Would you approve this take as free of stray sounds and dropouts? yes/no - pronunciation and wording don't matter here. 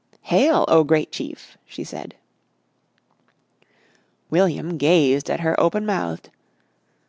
yes